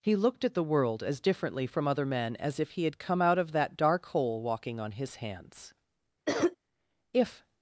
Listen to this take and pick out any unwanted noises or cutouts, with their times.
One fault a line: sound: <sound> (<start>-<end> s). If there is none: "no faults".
sound: cough (6.3-6.6 s)